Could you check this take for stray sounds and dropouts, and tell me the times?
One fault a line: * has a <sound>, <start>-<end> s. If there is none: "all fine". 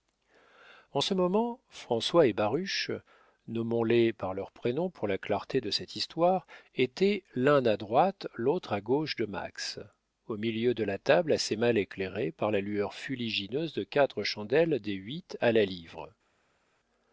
all fine